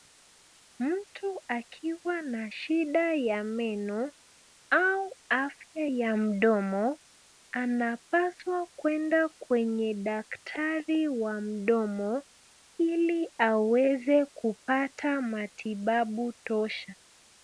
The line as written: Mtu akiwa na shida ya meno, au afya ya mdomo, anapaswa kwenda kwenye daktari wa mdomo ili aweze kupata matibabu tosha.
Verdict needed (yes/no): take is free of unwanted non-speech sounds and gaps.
yes